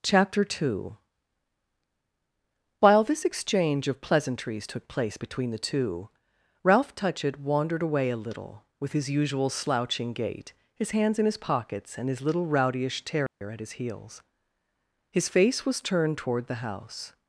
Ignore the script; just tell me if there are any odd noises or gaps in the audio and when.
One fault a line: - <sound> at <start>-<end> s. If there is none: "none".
- dropout at 13.3-13.4 s